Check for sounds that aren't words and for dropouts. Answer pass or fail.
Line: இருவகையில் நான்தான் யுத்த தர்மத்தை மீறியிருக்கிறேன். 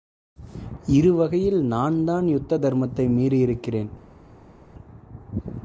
pass